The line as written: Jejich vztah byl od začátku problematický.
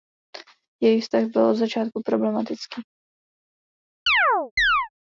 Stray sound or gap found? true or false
true